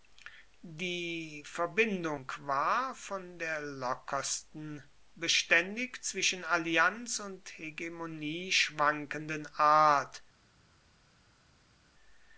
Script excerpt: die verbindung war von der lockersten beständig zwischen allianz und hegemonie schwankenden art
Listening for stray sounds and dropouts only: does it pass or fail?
pass